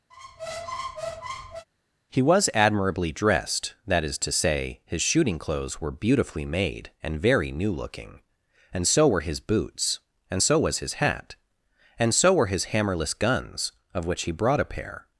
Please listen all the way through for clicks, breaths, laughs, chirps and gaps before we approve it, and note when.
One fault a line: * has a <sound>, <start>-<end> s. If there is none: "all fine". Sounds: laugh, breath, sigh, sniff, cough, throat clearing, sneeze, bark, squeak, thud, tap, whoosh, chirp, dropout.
* has a squeak, 0.1-1.7 s